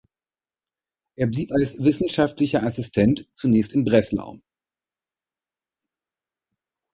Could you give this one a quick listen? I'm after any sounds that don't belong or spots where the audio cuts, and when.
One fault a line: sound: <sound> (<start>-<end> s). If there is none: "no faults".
no faults